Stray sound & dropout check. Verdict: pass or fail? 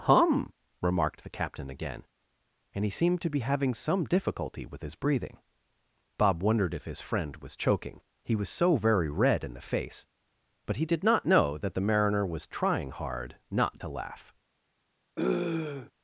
fail